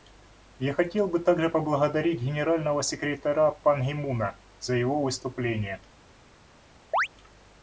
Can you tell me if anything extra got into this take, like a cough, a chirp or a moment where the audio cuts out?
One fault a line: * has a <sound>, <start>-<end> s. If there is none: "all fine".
* has a chirp, 6.9-7.1 s